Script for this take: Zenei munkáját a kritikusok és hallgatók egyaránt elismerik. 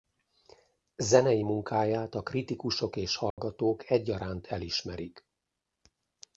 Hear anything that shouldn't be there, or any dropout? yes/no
yes